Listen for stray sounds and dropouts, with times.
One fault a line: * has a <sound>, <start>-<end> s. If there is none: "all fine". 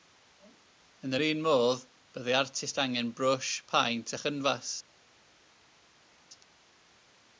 all fine